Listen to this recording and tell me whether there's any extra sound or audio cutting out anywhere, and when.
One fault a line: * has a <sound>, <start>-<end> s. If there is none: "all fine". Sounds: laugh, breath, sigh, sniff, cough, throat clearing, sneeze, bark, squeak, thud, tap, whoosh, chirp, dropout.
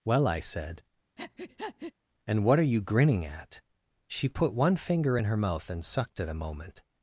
* has a breath, 1.2-1.9 s